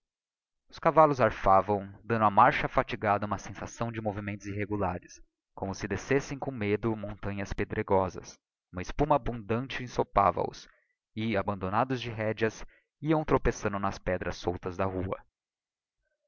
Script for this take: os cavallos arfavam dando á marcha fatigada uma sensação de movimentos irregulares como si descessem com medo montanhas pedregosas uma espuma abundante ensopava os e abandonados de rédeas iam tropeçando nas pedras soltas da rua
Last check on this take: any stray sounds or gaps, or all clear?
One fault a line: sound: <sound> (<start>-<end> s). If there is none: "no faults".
no faults